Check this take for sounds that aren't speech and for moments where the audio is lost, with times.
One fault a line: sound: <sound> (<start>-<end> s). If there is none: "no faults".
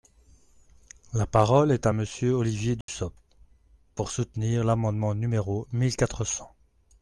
sound: dropout (2.8-2.9 s)